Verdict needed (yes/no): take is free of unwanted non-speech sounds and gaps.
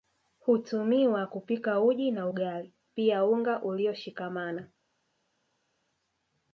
yes